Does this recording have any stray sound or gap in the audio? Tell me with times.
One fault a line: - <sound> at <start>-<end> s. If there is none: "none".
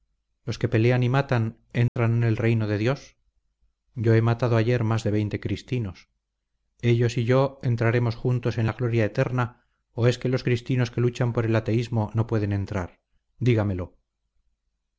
- dropout at 1.9-2.0 s